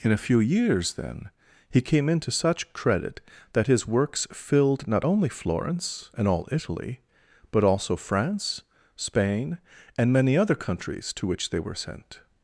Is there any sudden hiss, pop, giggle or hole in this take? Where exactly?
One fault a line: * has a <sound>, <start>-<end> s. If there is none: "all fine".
all fine